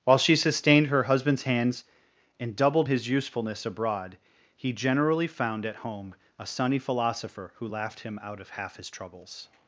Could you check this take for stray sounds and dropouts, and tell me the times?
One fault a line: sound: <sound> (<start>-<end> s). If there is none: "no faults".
no faults